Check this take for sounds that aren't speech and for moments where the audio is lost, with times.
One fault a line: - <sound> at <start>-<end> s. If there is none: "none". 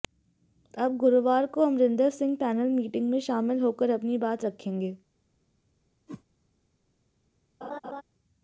- whoosh at 6.1-6.2 s
- laugh at 7.6-8.0 s